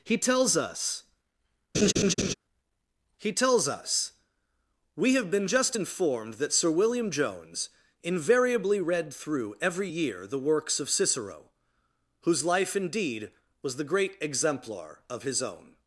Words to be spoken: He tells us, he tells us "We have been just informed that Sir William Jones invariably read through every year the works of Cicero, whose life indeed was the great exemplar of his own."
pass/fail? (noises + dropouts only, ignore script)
fail